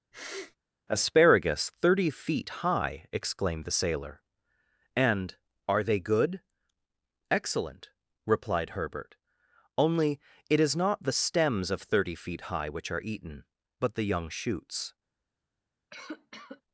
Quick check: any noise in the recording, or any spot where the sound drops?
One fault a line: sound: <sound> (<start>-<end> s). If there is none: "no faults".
sound: sniff (0.1-0.6 s)
sound: cough (15.9-16.6 s)